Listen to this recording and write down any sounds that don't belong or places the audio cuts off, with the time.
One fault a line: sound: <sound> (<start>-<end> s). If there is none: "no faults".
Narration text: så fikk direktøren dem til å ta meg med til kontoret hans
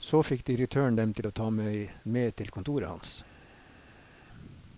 no faults